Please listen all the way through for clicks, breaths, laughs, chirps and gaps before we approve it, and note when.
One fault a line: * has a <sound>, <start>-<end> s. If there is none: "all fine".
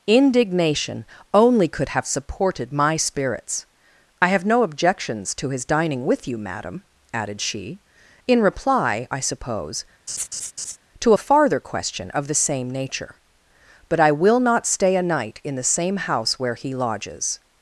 * has a laugh, 10.1-10.8 s